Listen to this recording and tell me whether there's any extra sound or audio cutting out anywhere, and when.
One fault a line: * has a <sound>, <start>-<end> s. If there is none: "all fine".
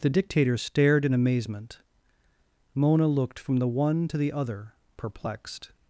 all fine